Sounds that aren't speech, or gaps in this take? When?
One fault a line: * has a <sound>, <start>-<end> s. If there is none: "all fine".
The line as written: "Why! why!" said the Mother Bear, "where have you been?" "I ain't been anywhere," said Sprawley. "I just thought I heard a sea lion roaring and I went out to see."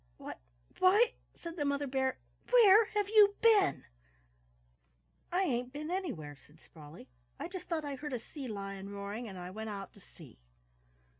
all fine